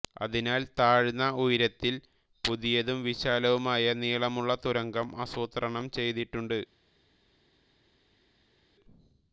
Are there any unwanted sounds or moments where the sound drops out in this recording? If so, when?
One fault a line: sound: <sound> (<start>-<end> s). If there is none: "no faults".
no faults